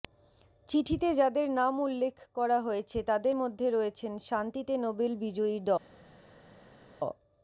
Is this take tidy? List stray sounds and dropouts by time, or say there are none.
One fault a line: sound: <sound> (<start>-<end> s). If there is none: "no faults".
no faults